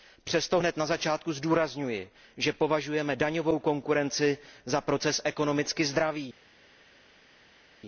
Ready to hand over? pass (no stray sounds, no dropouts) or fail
pass